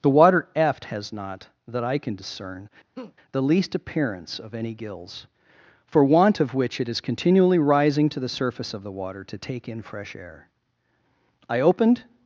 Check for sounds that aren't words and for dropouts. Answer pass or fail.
fail